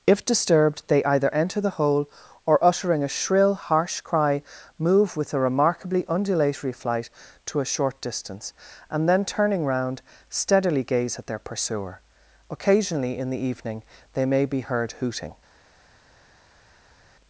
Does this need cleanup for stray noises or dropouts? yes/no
no